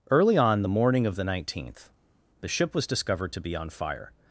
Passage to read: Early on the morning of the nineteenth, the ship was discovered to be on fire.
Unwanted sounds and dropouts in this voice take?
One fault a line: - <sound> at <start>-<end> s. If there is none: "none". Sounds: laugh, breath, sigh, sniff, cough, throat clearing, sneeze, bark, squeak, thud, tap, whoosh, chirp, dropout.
none